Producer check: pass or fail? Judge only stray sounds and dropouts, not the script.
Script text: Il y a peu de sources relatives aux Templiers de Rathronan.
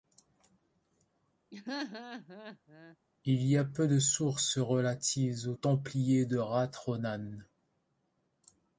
fail